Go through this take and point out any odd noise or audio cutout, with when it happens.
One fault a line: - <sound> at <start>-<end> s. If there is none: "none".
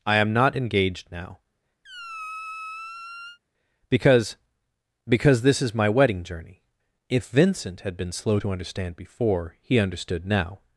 - squeak at 1.8-3.4 s